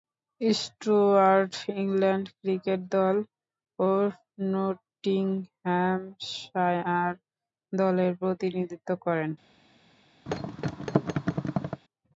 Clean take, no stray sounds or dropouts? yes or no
no